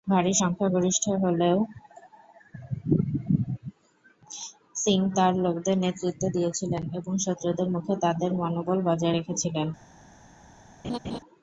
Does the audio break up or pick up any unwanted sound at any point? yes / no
yes